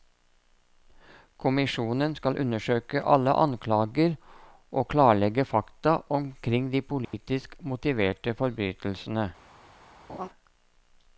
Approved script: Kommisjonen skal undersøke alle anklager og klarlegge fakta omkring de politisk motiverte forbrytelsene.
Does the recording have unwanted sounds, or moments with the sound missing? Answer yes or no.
yes